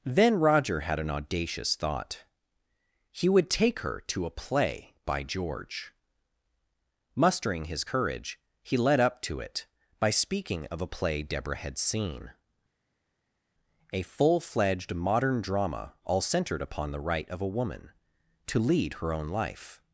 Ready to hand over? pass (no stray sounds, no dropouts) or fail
pass